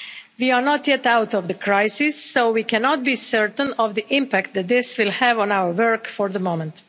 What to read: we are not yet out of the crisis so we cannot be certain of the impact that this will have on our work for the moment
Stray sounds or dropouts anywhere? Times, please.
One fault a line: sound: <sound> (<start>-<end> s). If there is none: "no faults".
no faults